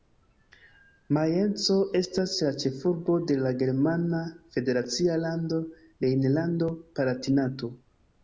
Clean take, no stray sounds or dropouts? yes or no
yes